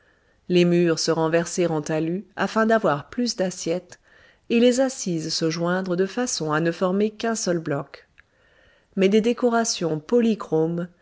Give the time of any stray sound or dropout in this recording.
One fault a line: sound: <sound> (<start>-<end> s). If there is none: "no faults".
no faults